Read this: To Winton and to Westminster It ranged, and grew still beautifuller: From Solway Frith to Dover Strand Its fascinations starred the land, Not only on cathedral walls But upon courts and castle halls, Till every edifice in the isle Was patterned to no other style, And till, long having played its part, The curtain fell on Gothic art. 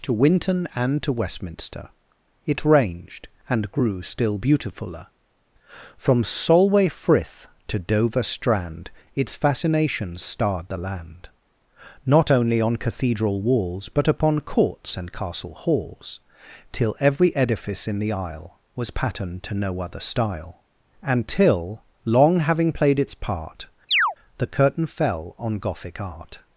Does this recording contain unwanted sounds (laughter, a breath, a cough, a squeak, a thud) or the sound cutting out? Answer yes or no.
yes